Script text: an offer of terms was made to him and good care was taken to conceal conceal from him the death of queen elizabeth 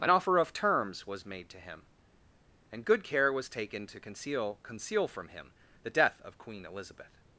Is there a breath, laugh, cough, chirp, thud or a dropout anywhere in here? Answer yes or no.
no